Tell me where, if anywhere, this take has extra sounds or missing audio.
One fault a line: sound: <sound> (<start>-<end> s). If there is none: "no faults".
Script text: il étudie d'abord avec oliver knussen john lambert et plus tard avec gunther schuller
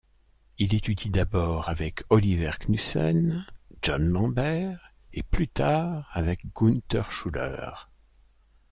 no faults